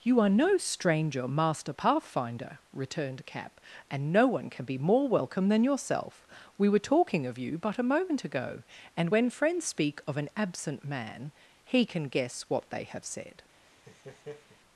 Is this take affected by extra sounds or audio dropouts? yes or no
yes